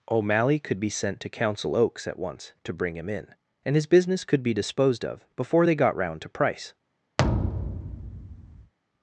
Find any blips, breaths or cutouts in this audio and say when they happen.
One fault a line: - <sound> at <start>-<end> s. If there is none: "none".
- thud at 7.2-8.7 s